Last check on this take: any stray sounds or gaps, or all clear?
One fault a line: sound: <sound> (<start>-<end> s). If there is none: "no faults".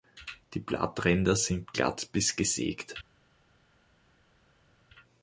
no faults